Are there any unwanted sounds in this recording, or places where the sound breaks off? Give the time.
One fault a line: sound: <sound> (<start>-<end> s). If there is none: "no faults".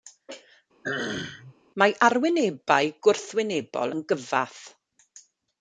sound: throat clearing (0.8-1.6 s)